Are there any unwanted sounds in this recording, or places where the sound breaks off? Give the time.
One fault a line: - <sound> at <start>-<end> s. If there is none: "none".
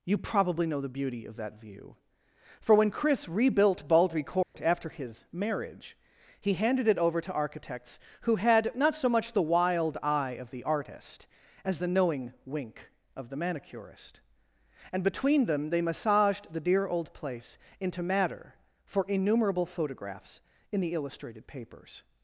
- dropout at 4.4-4.5 s